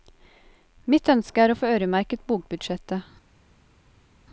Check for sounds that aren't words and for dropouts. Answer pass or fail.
pass